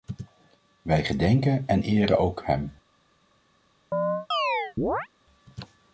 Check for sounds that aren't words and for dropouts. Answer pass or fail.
fail